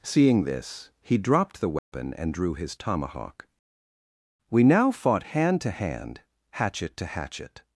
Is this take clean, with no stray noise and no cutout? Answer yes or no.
no